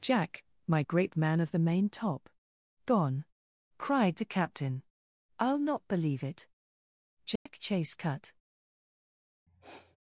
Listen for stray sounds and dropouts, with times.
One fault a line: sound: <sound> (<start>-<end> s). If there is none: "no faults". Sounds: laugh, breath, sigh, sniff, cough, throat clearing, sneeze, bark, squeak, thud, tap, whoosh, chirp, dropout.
sound: dropout (7.4-7.5 s)
sound: sniff (9.5-10.0 s)